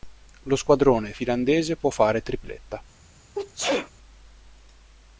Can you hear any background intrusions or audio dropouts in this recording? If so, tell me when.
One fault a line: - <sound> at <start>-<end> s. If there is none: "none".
- sneeze at 3.4-3.9 s